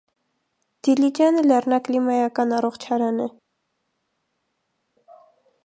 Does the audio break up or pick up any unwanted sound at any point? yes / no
no